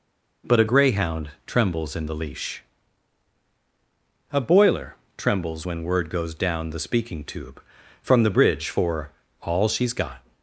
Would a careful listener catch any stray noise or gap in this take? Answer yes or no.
no